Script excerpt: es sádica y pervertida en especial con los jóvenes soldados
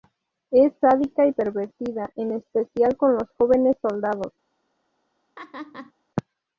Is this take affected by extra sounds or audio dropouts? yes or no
yes